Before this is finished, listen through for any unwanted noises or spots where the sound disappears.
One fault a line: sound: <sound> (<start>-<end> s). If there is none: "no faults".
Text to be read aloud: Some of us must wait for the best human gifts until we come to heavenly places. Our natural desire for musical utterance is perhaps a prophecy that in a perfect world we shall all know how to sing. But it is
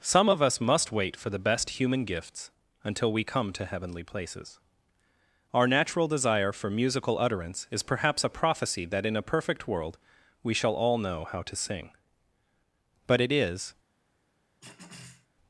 sound: throat clearing (14.6-15.3 s)